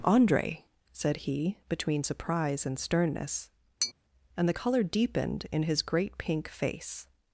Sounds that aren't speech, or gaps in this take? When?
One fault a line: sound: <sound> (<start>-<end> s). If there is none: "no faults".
sound: tap (3.8-3.9 s)